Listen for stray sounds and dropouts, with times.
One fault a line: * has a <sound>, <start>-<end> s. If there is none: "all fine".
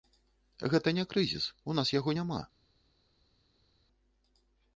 all fine